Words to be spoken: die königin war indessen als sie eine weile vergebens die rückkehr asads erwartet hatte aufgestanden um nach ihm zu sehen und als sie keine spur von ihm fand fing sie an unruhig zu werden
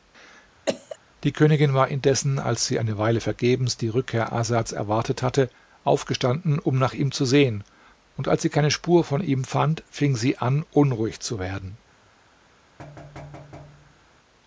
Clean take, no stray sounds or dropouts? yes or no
no